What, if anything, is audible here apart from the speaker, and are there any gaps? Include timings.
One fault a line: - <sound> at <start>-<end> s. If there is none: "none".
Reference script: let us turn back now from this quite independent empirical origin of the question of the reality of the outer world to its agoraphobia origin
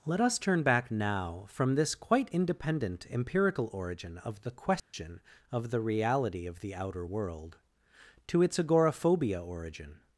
- dropout at 4.8-4.9 s